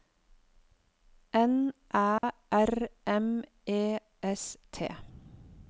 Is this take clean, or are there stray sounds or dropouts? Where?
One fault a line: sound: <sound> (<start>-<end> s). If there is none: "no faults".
sound: dropout (2.2-2.2 s)